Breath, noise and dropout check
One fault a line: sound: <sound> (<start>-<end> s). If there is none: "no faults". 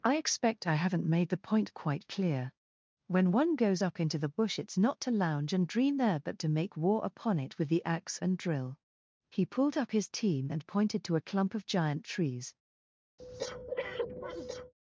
sound: breath (13.2-14.7 s)